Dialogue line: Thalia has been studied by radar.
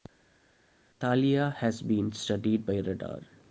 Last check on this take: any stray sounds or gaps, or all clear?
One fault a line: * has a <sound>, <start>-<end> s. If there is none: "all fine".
all fine